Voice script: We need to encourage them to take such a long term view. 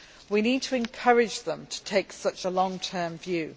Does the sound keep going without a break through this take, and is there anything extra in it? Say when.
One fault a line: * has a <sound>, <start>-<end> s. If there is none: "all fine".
all fine